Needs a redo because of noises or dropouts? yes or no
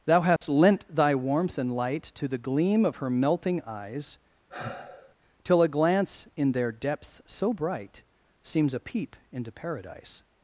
yes